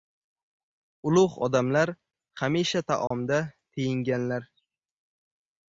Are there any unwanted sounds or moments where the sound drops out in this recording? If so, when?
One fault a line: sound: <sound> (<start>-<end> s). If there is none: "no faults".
sound: dropout (3.1-3.1 s)